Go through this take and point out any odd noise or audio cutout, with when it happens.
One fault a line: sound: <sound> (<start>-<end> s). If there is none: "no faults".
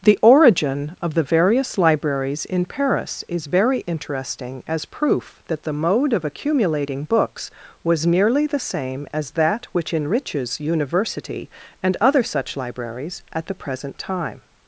no faults